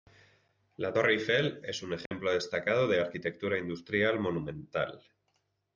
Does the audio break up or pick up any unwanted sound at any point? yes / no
yes